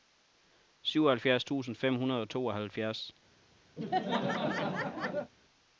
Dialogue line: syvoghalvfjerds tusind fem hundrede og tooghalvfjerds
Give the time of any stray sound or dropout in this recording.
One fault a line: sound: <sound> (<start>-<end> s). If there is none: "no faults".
sound: laugh (3.8-5.3 s)